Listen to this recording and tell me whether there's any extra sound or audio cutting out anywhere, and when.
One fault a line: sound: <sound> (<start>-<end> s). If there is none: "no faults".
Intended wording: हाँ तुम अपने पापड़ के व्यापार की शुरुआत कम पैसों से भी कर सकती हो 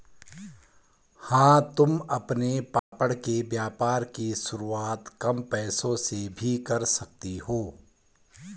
sound: dropout (2.8-2.9 s)